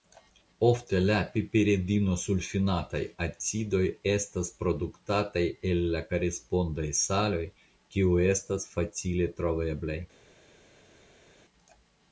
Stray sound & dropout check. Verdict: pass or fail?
pass